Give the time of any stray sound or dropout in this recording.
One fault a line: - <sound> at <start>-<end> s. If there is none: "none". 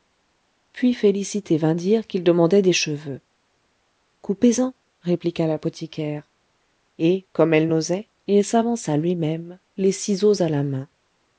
none